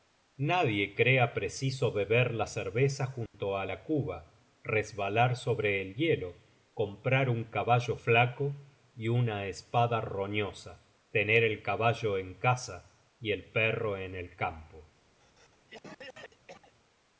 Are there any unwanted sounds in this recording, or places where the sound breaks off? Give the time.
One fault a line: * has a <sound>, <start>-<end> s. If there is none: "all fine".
* has a dropout, 3.3-3.3 s
* has a cough, 15.2-16.7 s